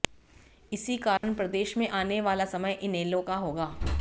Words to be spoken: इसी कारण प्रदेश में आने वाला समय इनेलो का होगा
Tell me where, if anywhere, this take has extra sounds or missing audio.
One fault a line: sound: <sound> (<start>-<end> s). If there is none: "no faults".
sound: dropout (1.2-1.2 s)